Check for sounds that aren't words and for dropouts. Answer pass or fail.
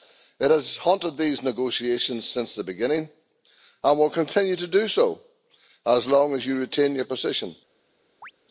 fail